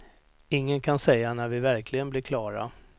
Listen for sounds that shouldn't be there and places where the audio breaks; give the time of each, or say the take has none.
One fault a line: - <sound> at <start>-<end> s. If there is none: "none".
none